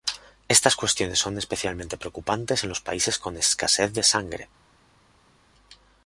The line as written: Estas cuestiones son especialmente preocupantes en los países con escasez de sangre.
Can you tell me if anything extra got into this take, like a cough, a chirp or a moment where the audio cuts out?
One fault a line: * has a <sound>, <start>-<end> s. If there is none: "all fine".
all fine